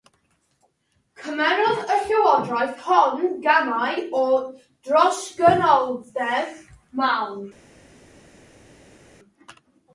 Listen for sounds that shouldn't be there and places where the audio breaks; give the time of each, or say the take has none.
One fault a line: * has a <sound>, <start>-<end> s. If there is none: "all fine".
all fine